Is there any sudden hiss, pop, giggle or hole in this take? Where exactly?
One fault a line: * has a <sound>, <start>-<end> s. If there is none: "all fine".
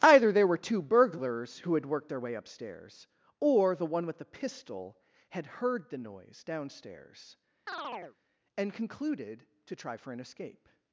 * has a chirp, 7.7-8.2 s